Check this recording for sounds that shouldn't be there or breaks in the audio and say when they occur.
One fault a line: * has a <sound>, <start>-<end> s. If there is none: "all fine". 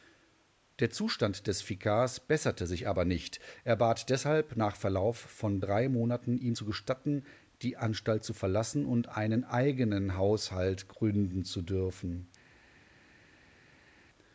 all fine